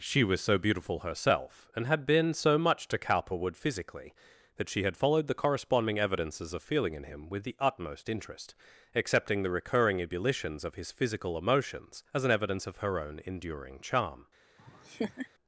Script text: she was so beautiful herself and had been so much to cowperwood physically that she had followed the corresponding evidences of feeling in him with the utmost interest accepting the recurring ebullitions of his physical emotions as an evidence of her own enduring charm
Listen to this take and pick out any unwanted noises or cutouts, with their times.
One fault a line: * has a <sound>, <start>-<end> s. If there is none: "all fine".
* has a laugh, 14.6-15.3 s